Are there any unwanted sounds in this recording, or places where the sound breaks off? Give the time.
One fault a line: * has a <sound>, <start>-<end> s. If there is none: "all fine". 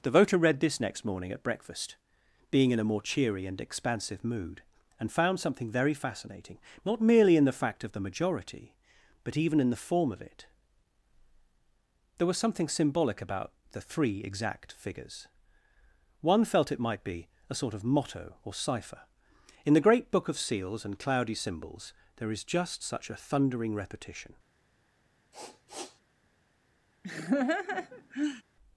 * has a sniff, 25.3-26.0 s
* has a laugh, 27.0-28.4 s